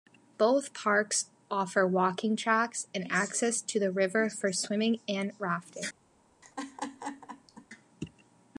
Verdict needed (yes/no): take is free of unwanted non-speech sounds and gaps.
no